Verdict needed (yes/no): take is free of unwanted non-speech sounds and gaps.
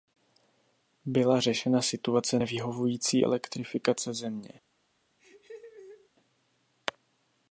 no